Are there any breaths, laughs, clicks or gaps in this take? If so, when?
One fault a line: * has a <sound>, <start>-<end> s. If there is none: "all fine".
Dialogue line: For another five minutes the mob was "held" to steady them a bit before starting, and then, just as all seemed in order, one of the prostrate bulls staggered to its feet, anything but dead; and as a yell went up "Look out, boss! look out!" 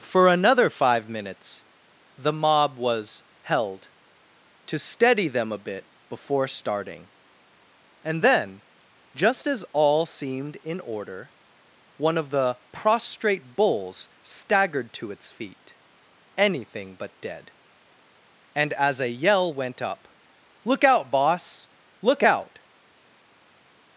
all fine